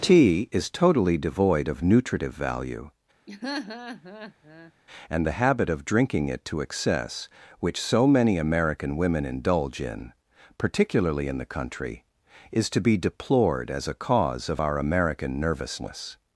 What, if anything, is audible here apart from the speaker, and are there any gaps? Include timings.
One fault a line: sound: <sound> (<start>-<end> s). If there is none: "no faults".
sound: laugh (3.3-4.7 s)